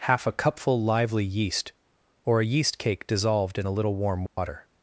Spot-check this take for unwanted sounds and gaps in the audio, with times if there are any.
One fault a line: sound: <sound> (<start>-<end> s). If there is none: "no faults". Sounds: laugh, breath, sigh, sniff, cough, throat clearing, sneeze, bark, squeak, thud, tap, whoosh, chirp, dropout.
sound: dropout (4.3-4.4 s)